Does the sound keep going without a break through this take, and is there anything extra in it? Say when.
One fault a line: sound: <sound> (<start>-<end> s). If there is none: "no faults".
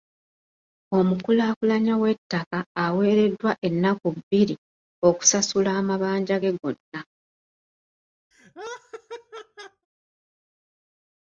sound: laugh (8.3-9.9 s)